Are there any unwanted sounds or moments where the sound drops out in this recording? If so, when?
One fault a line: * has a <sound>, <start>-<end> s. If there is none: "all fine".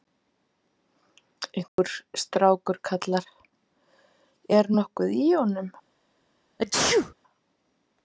* has a dropout, 1.7-1.8 s
* has a sneeze, 6.6-7.1 s